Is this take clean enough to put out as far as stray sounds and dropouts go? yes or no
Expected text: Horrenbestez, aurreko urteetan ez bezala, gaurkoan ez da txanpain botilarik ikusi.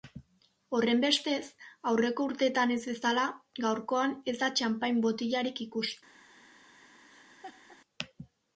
no